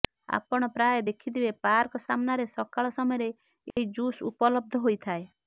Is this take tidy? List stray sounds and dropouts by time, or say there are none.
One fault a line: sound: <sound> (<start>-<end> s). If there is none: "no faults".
sound: dropout (3.7-3.8 s)